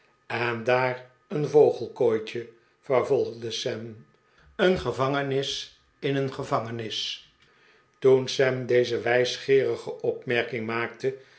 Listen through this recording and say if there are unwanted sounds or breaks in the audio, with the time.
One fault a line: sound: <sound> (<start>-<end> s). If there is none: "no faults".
no faults